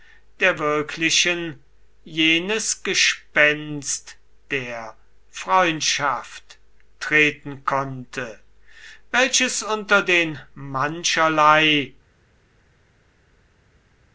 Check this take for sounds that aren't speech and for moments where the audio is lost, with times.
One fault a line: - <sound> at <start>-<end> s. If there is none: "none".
none